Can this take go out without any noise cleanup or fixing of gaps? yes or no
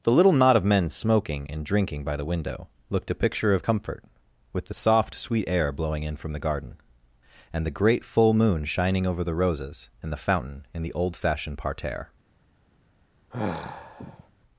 no